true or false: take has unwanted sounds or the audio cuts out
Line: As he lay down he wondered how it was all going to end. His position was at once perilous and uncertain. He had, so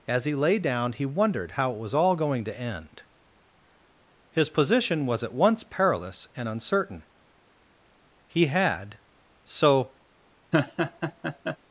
true